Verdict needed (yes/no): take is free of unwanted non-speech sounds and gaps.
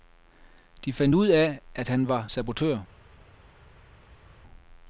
yes